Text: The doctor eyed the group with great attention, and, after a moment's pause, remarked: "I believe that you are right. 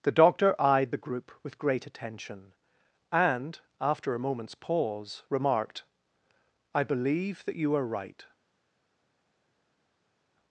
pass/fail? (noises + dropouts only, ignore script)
pass